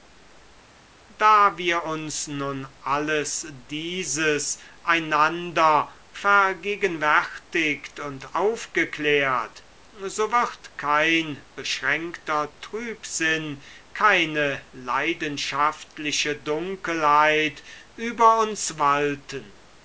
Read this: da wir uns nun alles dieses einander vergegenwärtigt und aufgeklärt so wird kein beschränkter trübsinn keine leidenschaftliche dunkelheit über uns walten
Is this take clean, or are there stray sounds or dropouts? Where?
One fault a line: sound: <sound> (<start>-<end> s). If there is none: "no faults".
no faults